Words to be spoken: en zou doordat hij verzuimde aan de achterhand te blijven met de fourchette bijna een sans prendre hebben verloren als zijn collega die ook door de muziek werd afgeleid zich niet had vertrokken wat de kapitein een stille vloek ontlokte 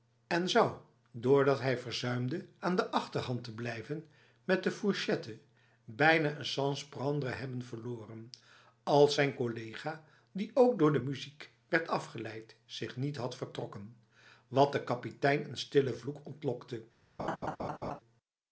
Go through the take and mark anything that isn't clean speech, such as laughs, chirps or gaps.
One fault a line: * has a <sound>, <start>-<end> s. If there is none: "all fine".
* has a laugh, 17.2-18.0 s